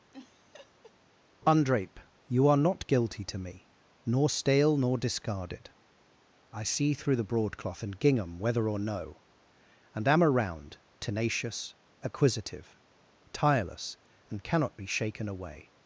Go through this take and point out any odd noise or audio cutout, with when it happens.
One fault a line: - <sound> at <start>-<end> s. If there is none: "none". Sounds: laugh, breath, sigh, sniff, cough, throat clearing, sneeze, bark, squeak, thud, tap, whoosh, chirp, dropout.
- laugh at 0.1-0.9 s